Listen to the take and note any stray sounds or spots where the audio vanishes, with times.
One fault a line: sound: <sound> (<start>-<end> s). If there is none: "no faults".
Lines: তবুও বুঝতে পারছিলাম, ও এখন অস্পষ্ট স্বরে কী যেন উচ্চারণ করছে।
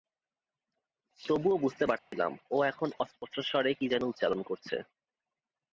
sound: dropout (2.0-2.1 s)